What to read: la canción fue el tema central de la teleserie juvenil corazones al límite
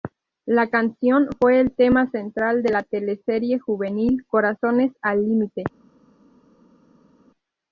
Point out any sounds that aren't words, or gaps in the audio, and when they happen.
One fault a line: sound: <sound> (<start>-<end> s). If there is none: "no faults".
no faults